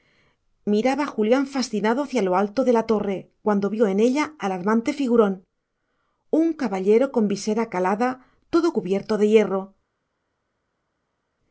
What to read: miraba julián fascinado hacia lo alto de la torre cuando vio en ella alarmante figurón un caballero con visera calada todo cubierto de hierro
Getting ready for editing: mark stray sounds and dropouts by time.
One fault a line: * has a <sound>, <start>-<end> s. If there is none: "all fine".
all fine